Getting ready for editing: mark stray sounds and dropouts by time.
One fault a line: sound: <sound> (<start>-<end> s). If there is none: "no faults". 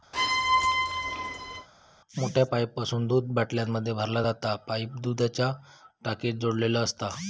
sound: squeak (0.1-1.7 s)